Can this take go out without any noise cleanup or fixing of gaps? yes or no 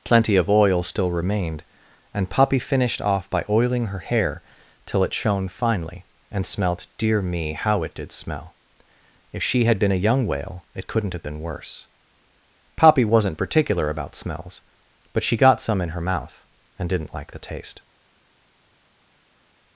yes